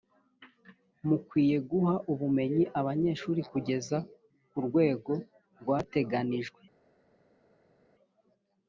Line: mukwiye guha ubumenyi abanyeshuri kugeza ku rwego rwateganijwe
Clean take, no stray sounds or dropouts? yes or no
yes